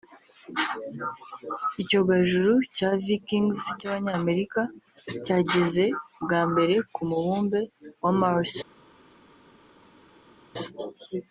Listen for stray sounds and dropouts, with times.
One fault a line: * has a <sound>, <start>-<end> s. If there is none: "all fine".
all fine